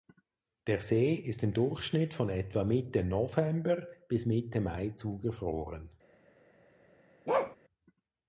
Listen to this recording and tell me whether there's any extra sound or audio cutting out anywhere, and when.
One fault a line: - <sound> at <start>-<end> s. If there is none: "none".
- bark at 7.3-7.6 s